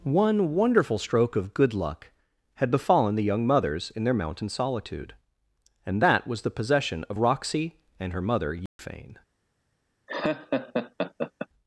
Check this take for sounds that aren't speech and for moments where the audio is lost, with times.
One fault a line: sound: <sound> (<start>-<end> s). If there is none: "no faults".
sound: dropout (8.7-8.8 s)
sound: laugh (10.1-11.5 s)